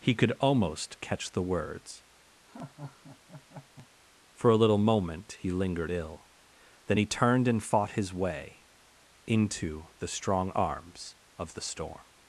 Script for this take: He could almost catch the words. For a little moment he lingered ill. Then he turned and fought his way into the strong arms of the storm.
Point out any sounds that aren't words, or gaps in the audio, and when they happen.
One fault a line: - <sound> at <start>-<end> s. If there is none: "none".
- laugh at 2.5-3.9 s